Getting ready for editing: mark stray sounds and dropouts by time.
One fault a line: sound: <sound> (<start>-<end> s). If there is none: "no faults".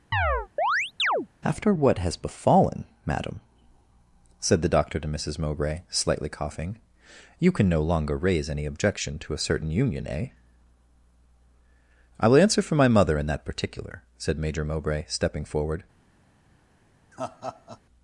sound: chirp (0.1-1.3 s)
sound: laugh (17.1-17.8 s)